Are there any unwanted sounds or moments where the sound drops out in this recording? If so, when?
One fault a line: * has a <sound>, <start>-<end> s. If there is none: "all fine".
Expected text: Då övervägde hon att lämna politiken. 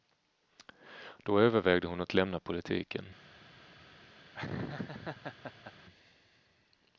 * has a laugh, 4.3-5.7 s